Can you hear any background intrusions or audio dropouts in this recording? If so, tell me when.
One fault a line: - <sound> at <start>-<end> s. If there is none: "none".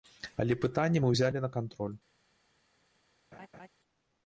- laugh at 3.3-3.7 s